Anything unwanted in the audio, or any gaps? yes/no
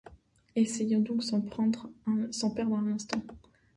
no